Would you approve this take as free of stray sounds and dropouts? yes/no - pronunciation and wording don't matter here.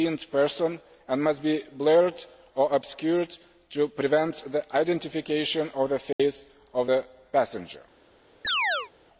no